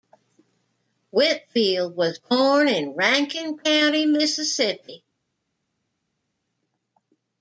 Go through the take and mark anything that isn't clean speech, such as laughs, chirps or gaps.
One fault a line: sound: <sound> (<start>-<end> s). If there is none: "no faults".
no faults